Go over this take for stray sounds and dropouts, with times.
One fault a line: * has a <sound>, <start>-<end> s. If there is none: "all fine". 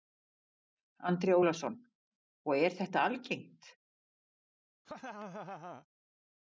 * has a laugh, 4.8-5.9 s